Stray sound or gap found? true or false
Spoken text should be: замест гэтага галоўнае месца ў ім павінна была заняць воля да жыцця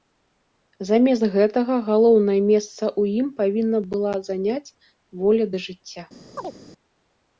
true